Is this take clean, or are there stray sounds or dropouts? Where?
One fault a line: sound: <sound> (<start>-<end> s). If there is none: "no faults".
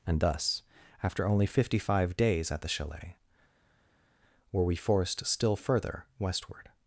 no faults